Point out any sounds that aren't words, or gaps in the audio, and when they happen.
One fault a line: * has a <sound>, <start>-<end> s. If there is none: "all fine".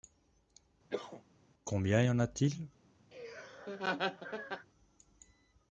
* has a cough, 0.9-1.2 s
* has a laugh, 3.1-4.7 s